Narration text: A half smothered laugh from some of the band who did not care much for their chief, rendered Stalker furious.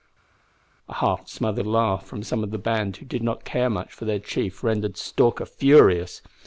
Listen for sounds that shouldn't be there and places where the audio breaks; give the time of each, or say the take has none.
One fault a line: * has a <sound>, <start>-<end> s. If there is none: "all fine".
all fine